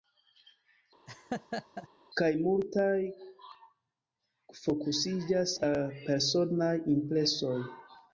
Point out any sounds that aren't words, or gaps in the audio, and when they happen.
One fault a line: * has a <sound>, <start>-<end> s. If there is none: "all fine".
* has a laugh, 1.1-1.9 s